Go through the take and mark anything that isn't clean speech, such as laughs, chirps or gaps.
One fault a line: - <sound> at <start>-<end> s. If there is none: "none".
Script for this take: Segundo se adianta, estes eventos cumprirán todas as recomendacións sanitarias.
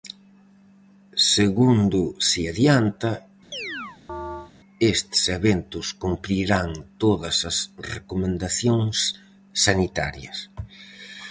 - chirp at 3.5-4.5 s